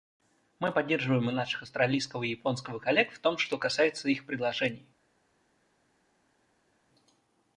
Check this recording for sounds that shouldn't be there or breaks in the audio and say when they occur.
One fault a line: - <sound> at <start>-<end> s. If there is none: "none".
none